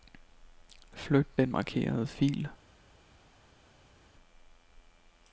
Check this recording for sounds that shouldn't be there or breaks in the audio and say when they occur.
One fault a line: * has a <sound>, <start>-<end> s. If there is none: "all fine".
all fine